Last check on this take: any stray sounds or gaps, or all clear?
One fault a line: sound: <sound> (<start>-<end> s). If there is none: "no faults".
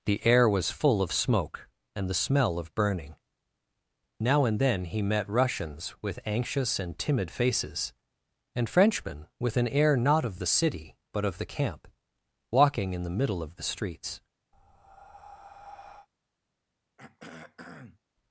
sound: breath (14.5-16.1 s)
sound: throat clearing (17.0-18.0 s)